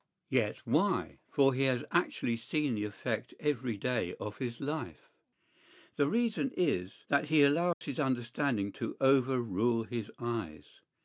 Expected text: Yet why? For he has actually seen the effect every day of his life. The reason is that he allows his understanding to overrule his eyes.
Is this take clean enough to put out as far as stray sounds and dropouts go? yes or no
no